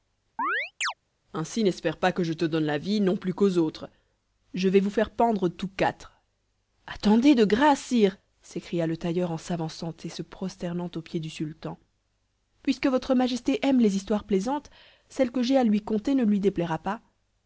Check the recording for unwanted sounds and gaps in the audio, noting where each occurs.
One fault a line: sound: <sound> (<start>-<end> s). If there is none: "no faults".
sound: chirp (0.4-0.9 s)